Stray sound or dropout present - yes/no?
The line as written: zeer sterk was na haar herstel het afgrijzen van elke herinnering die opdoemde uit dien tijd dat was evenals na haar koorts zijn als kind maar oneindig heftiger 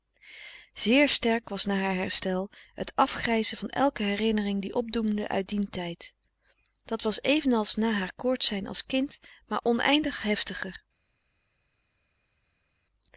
no